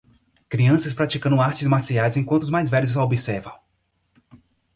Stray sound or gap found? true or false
false